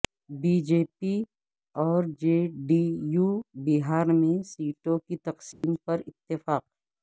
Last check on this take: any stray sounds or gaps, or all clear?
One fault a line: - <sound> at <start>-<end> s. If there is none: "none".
- dropout at 5.5-5.6 s